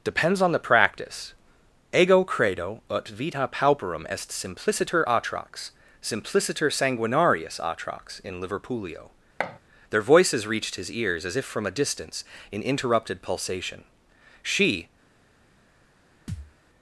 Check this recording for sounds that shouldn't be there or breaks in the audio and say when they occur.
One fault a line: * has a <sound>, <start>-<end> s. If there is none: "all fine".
* has a thud, 9.4-9.6 s
* has a thud, 16.3-16.5 s